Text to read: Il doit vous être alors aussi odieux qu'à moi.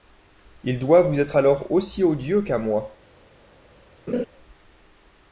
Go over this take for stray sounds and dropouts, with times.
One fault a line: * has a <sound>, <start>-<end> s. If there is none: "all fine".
* has a laugh, 4.1-4.3 s